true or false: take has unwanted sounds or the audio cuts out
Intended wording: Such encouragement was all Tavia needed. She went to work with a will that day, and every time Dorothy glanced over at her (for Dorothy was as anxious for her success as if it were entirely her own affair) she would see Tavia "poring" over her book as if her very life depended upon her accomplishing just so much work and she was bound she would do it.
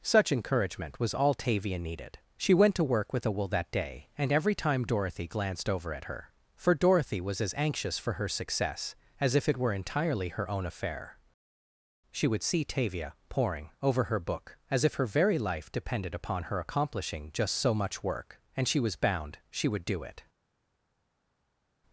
false